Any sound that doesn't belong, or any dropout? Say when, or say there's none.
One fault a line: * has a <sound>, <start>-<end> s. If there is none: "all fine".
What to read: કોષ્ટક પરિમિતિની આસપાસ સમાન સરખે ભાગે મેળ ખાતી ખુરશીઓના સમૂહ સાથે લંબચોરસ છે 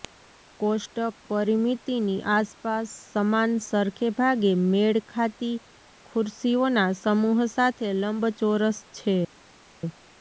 all fine